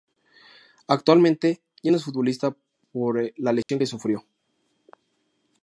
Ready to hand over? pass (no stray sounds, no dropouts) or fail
fail